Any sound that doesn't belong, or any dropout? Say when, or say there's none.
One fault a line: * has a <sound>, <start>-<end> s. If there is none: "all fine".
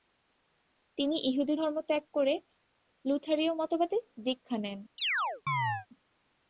* has a chirp, 5.0-5.9 s